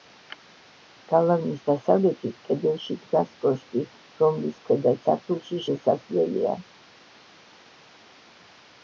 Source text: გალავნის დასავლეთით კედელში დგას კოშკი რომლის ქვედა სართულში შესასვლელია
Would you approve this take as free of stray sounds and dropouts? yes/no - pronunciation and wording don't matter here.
yes